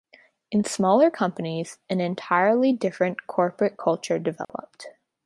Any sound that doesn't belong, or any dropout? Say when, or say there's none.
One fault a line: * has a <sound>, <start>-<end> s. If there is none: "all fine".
* has a dropout, 4.4-4.5 s